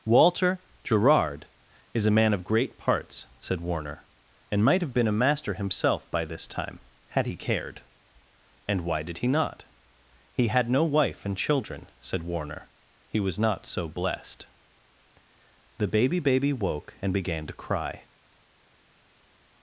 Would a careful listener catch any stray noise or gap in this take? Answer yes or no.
no